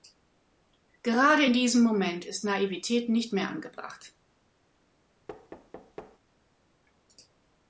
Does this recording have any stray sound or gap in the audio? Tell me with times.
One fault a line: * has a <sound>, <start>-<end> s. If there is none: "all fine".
* has a thud, 5.3-6.2 s